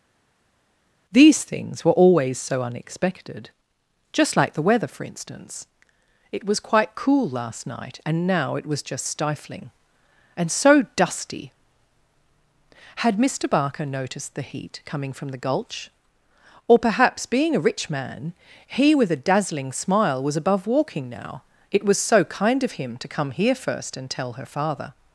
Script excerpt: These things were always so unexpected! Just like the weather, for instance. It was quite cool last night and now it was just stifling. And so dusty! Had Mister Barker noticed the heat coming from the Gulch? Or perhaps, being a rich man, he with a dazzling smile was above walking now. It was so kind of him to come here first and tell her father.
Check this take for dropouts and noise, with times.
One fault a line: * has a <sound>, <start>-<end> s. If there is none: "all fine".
all fine